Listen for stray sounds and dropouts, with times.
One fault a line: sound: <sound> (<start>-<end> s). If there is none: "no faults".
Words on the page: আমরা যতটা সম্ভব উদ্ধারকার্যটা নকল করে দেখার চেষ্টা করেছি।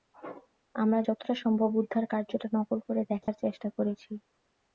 sound: dropout (3.2-3.3 s)